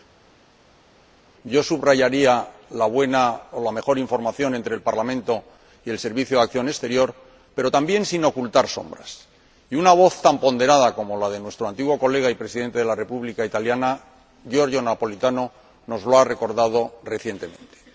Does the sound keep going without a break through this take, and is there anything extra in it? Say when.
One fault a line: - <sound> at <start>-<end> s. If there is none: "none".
none